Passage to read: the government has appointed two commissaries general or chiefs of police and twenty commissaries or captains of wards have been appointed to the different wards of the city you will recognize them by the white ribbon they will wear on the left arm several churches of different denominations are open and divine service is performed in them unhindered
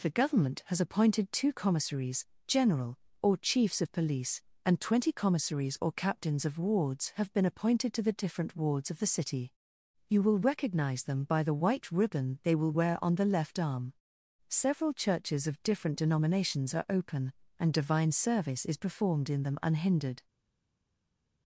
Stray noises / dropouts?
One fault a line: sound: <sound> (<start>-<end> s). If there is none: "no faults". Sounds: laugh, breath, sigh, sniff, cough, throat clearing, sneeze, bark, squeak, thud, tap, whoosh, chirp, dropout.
no faults